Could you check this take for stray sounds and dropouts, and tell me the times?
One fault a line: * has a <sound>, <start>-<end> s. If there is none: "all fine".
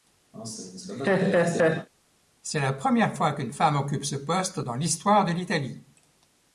* has a laugh, 0.3-1.9 s